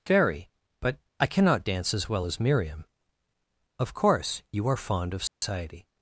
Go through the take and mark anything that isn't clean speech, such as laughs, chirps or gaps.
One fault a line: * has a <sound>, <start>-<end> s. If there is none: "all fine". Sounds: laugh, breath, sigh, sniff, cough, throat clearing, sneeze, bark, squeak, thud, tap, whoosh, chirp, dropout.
* has a dropout, 5.3-5.4 s